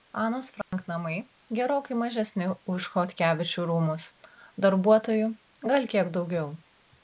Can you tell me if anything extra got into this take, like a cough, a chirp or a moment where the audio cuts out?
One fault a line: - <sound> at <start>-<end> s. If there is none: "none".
- dropout at 0.6-0.7 s